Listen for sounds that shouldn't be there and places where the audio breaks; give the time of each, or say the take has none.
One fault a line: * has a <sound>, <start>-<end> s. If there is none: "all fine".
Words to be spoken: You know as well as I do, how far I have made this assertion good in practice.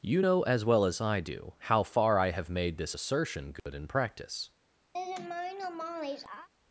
* has a dropout, 3.6-3.7 s
* has a laugh, 4.9-6.5 s